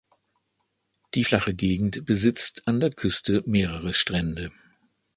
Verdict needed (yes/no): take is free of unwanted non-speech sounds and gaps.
yes